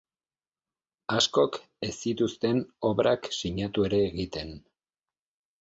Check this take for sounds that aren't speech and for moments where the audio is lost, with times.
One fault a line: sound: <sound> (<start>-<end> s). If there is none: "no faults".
no faults